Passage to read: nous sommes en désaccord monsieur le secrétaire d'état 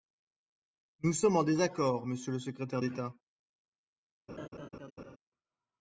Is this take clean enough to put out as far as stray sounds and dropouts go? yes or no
no